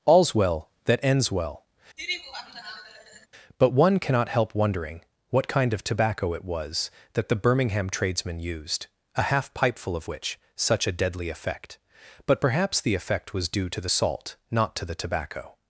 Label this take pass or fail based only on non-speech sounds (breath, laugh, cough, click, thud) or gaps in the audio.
fail